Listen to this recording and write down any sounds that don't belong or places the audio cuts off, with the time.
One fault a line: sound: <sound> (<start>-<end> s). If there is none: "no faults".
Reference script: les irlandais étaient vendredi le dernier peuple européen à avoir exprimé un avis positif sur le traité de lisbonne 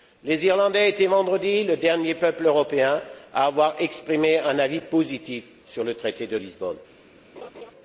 sound: laugh (7.4-7.7 s)